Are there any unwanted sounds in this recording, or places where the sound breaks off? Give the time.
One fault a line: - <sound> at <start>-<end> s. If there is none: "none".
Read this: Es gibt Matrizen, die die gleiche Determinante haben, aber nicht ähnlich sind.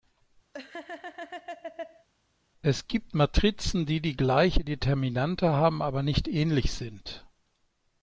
- laugh at 0.5-2.1 s